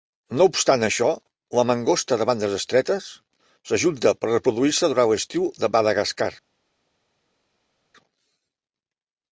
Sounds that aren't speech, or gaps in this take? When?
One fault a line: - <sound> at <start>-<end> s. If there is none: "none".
none